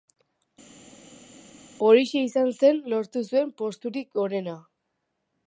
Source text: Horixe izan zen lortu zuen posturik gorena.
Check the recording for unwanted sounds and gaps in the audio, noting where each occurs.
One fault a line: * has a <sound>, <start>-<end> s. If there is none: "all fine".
all fine